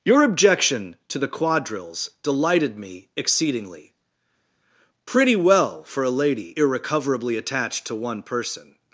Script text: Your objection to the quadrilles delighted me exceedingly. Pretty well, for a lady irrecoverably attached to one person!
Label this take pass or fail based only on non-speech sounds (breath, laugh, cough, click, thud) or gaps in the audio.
pass